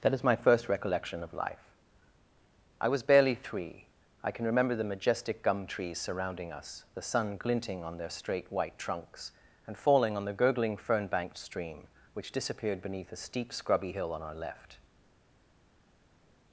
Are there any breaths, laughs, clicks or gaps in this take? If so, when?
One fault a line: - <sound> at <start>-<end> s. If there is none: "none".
none